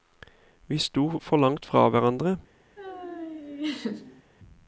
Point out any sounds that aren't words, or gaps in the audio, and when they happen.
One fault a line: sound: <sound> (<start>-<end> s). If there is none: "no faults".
sound: laugh (2.8-4.2 s)